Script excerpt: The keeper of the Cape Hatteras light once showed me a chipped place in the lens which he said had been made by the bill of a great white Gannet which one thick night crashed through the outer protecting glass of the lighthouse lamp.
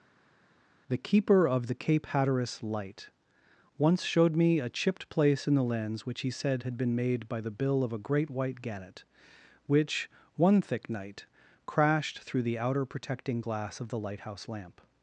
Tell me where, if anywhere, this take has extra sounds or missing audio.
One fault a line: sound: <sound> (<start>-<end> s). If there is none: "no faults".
no faults